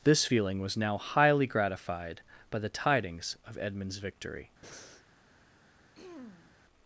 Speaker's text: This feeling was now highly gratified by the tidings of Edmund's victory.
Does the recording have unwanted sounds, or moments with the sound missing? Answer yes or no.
yes